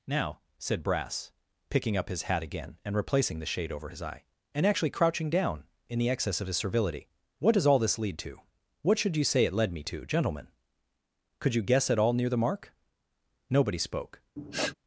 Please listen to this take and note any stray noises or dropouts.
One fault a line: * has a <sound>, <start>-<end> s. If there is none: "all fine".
* has a sniff, 14.4-14.7 s